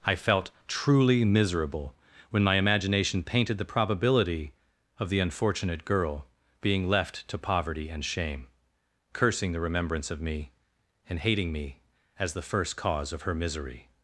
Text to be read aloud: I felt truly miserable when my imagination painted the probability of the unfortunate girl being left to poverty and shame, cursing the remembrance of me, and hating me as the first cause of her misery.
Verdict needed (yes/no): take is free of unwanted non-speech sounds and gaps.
yes